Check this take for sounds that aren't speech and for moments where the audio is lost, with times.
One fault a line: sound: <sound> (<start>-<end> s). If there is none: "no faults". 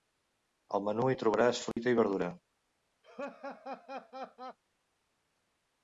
sound: dropout (1.7-1.8 s)
sound: laugh (3.0-4.6 s)